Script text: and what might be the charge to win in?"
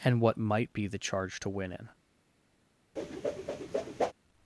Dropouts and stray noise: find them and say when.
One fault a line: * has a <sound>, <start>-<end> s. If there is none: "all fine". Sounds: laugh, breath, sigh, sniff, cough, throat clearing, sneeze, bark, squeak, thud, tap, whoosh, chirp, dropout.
* has a whoosh, 3.0-4.1 s